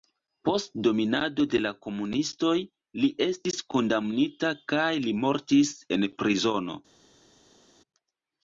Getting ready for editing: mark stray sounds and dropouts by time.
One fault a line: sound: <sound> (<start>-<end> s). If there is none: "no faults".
no faults